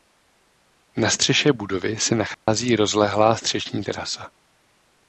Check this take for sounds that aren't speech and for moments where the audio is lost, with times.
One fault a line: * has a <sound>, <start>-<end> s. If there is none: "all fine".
* has a dropout, 2.3-2.5 s